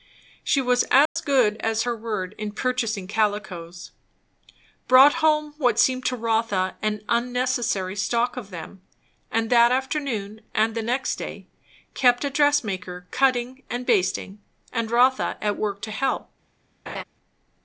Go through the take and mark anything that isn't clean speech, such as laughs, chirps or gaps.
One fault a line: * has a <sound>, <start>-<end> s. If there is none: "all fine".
* has a dropout, 1.1-1.2 s
* has a laugh, 16.9-17.0 s